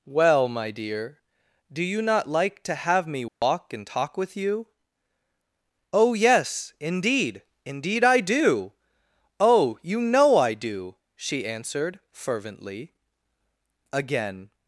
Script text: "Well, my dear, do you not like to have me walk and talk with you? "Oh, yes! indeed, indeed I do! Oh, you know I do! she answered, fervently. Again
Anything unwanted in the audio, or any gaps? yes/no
yes